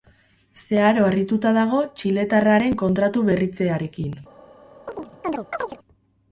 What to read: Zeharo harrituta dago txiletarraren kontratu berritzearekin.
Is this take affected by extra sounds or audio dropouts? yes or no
yes